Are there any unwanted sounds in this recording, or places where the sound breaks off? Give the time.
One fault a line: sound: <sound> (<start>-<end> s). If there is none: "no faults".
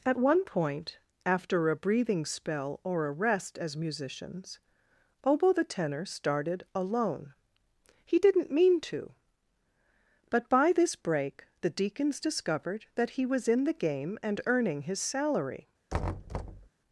sound: thud (15.9-16.7 s)